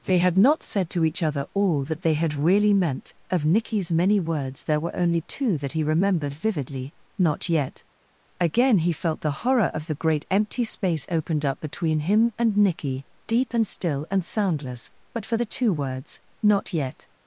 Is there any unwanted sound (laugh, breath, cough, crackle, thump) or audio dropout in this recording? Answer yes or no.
no